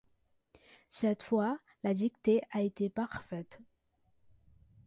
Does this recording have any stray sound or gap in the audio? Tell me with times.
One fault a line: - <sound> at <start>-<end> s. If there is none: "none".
none